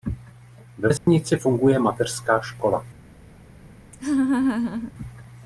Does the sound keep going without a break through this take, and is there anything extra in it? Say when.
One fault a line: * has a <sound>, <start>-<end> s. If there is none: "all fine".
* has a dropout, 1.0-1.1 s
* has a laugh, 3.9-4.9 s